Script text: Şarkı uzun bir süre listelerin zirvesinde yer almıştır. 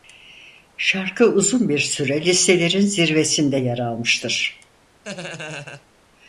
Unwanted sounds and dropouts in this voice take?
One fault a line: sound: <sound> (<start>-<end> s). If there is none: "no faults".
sound: laugh (5.0-5.9 s)